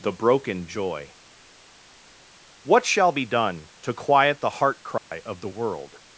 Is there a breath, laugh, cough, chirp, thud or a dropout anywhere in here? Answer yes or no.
yes